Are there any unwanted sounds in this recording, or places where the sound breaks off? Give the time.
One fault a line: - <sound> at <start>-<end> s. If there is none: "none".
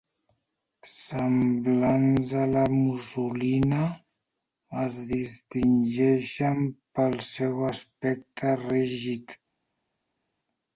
none